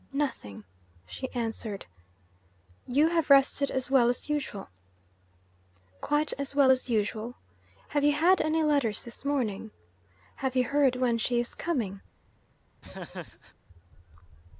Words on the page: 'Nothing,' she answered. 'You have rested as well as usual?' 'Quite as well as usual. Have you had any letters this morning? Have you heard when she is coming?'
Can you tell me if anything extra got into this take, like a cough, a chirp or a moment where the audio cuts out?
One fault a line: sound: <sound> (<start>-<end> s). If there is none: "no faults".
sound: laugh (12.8-13.5 s)